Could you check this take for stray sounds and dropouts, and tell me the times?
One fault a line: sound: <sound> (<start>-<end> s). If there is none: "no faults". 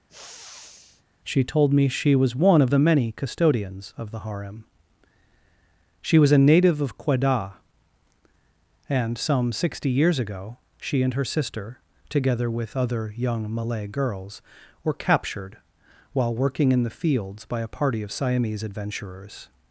sound: sniff (0.1-1.0 s)